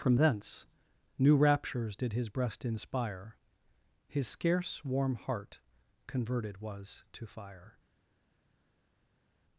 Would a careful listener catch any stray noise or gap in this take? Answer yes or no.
no